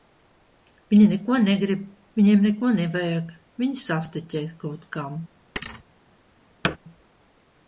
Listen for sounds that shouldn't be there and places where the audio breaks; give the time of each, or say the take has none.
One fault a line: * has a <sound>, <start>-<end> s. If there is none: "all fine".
* has a thud, 5.6-5.8 s
* has a thud, 6.6-6.8 s